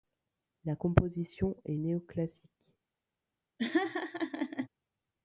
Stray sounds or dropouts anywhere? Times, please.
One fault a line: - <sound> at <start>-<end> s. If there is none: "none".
- laugh at 3.6-4.7 s